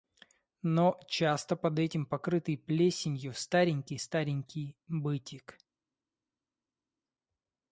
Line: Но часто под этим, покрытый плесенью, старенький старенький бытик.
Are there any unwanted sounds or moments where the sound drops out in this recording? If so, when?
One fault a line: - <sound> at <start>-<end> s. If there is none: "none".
none